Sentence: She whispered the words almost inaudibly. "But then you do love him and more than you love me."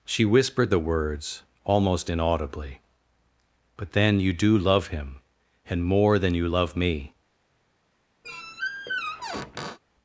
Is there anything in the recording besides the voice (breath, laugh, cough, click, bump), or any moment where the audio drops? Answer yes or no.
yes